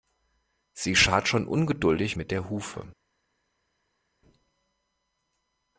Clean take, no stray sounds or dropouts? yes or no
yes